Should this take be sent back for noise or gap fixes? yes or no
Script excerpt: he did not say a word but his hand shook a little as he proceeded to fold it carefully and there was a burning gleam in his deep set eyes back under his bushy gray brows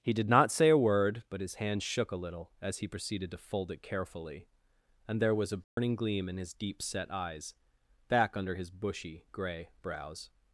yes